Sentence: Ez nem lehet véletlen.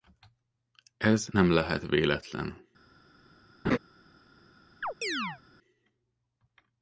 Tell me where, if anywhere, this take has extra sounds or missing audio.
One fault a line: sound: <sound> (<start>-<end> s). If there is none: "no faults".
sound: laugh (3.6-3.8 s)
sound: chirp (4.8-5.4 s)